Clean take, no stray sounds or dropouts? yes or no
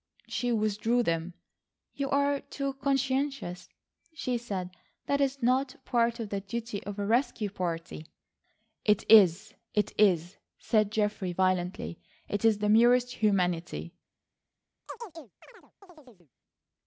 no